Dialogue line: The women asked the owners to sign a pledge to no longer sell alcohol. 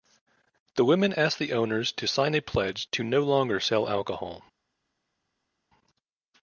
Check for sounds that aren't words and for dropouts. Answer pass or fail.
pass